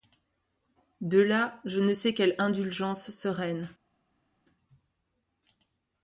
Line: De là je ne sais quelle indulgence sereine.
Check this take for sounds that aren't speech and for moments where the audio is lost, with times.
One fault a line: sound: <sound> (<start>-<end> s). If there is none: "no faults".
no faults